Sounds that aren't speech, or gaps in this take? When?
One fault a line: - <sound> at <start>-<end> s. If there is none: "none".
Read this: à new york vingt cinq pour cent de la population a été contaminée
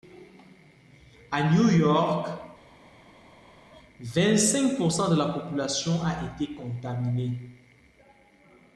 none